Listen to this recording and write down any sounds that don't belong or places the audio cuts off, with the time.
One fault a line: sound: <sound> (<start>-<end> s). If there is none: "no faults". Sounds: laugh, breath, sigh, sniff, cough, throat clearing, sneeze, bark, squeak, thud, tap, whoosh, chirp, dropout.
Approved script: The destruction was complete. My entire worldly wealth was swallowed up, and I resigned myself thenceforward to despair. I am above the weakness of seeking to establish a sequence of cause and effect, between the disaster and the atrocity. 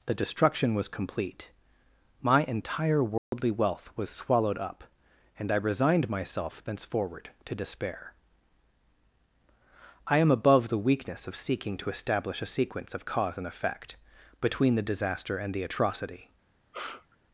sound: dropout (3.2-3.3 s)
sound: sneeze (16.7-17.2 s)